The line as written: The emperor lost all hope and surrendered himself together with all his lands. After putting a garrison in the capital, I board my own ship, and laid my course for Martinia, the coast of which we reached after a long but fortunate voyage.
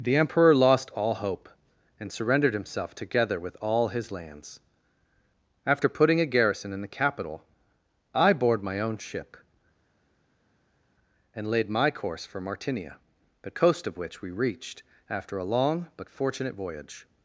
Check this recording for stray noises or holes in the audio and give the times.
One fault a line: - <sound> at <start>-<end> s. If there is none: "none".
none